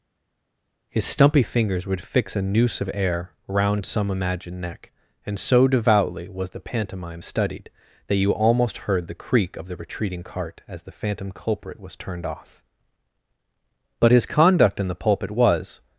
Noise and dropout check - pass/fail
pass